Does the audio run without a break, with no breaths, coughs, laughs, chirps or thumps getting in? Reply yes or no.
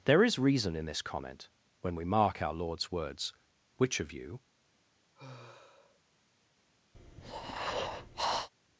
no